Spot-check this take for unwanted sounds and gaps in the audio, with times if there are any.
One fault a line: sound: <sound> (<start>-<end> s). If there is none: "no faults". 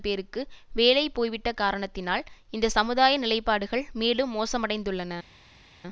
no faults